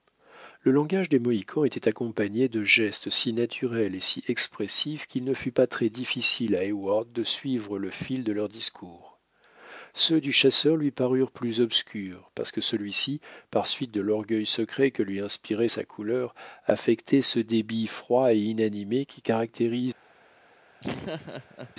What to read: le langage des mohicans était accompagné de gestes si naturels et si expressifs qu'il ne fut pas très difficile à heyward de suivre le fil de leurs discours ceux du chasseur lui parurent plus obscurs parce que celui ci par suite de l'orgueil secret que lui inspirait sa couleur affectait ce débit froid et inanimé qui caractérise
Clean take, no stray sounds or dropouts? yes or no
no